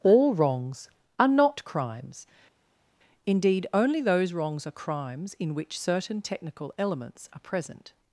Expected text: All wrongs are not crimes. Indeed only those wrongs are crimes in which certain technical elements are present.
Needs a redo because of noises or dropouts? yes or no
no